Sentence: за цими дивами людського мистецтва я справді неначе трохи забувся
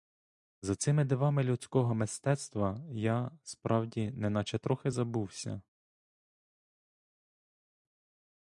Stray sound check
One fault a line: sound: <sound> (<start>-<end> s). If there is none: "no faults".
no faults